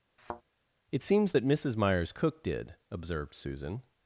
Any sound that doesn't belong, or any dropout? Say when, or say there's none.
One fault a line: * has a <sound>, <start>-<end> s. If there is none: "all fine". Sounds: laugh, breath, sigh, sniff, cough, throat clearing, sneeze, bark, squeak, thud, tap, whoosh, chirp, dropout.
* has a thud, 0.2-0.4 s